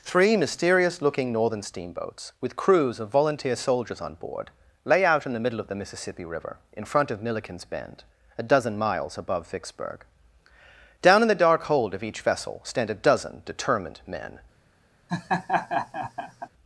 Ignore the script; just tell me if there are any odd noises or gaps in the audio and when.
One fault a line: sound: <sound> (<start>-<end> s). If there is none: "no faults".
sound: laugh (15.1-16.5 s)